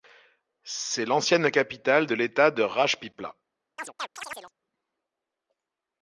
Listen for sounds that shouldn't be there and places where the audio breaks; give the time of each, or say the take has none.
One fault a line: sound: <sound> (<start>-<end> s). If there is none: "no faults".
sound: chirp (3.8-4.5 s)